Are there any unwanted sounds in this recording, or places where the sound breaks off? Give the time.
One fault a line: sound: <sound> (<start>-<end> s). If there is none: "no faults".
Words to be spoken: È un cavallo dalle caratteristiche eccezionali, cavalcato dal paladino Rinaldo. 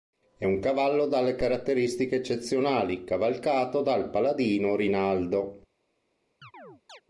sound: chirp (6.4-7.0 s)